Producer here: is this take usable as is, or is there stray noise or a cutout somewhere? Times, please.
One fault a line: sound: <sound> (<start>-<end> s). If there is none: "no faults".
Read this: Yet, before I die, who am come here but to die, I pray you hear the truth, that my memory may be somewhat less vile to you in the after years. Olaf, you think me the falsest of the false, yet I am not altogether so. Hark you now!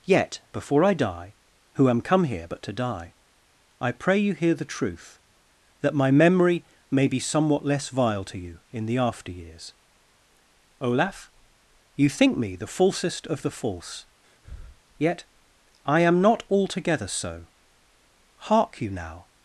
sound: breath (14.2-14.8 s)